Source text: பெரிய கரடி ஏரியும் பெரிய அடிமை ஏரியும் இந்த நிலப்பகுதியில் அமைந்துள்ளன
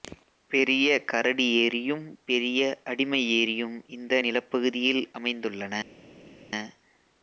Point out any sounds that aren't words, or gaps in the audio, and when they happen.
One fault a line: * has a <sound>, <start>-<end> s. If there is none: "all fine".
all fine